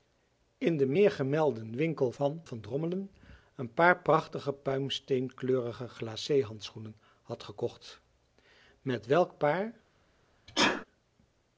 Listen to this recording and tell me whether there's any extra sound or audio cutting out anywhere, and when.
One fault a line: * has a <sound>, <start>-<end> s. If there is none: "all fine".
* has a sneeze, 10.5-10.9 s